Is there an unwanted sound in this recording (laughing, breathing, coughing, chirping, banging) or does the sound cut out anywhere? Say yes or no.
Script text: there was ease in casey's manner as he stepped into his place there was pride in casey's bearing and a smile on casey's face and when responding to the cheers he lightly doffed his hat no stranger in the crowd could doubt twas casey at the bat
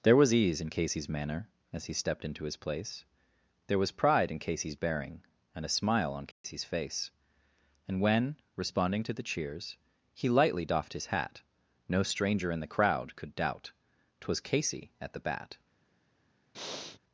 yes